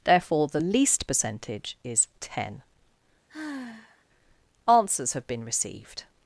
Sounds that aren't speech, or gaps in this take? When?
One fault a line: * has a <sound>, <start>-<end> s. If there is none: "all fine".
* has a sigh, 3.3-4.0 s